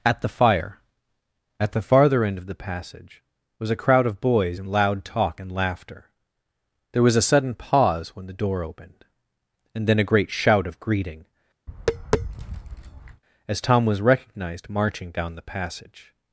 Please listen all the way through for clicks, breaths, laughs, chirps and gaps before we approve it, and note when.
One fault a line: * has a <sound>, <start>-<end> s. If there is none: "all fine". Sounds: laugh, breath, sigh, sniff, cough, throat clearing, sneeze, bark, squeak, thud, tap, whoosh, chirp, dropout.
* has a tap, 11.7-13.2 s